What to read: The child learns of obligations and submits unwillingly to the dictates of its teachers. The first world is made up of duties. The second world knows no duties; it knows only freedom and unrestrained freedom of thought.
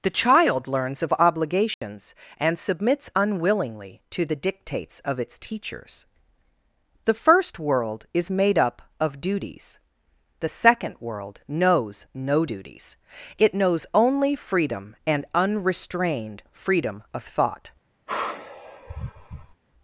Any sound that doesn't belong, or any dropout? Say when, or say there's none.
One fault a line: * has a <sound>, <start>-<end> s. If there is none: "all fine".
* has a dropout, 1.7-1.8 s
* has a sigh, 18.1-19.6 s